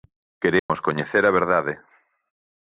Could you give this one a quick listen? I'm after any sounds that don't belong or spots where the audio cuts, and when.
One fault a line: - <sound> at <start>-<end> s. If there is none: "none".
- dropout at 0.6-0.7 s